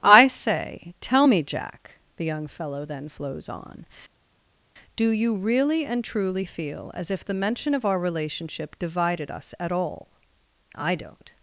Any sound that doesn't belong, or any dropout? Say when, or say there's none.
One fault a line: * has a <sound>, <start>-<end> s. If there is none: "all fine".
all fine